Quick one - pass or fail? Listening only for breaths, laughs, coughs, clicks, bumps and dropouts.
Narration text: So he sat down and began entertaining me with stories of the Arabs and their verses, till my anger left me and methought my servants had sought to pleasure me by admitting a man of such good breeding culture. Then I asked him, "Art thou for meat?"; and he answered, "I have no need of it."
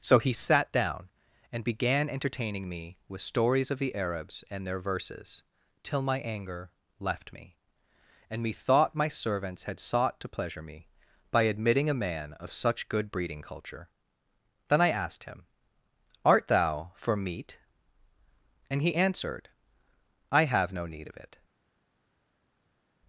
pass